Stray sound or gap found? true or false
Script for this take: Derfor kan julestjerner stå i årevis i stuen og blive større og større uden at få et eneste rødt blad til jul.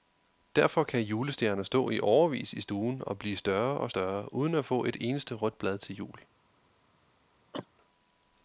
true